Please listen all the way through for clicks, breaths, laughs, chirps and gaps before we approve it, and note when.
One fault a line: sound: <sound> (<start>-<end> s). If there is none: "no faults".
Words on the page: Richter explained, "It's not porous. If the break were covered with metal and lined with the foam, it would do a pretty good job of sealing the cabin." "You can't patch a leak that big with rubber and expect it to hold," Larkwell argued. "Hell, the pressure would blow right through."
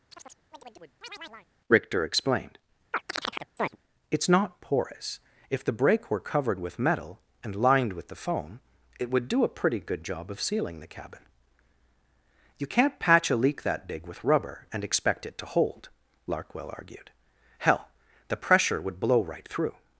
sound: chirp (0.1-1.5 s)
sound: chirp (2.9-3.8 s)